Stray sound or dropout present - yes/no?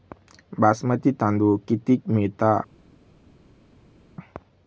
no